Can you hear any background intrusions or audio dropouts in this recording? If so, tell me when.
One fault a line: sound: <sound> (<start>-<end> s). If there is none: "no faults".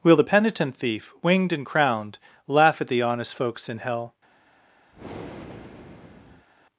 sound: breath (4.9-6.5 s)